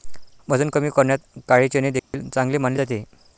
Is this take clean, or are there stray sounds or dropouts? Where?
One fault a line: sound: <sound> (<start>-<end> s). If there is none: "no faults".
sound: dropout (2.0-2.1 s)